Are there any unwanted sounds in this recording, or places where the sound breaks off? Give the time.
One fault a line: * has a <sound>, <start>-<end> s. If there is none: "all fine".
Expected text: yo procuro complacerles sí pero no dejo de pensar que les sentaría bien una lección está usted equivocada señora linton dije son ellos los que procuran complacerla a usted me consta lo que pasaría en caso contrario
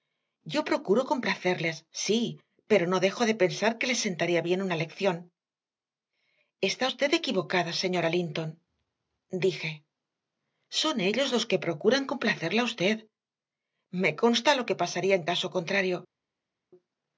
all fine